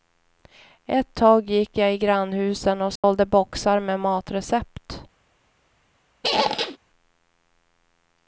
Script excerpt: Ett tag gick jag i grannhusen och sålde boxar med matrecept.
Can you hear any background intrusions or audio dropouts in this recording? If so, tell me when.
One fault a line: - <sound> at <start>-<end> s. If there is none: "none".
- dropout at 3.0-3.0 s
- squeak at 6.2-6.8 s